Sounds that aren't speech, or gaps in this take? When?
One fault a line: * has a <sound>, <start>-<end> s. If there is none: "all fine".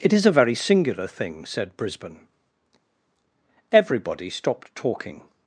all fine